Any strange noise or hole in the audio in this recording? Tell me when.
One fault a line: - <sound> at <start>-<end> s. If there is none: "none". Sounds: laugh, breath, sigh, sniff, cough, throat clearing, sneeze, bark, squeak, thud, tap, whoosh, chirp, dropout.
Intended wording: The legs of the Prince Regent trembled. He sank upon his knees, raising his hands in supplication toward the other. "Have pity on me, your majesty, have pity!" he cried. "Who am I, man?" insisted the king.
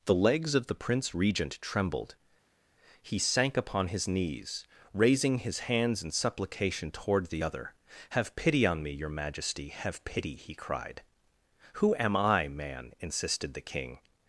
none